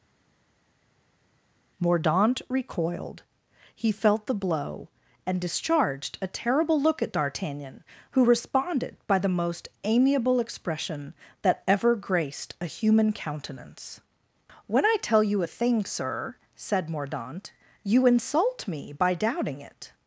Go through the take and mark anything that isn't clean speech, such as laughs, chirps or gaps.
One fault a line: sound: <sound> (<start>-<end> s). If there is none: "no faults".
no faults